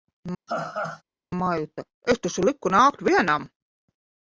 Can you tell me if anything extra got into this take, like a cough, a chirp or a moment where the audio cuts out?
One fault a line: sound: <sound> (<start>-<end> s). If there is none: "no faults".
sound: laugh (0.5-1.0 s)